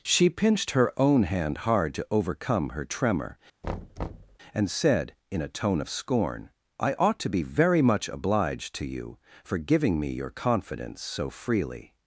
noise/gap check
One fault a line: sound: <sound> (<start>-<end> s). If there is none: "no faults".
sound: thud (3.6-4.4 s)